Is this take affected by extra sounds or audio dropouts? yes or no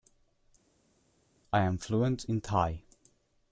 no